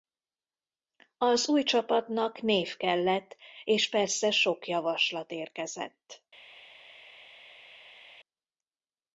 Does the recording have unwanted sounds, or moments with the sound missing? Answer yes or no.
no